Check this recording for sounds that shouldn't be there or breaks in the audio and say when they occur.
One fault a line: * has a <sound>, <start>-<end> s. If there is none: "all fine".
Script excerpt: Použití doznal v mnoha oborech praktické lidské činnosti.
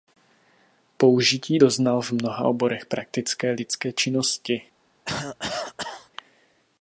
* has a cough, 5.1-6.1 s